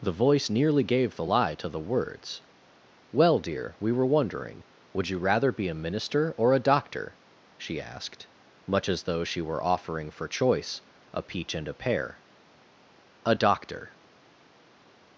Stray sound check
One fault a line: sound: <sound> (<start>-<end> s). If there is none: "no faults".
no faults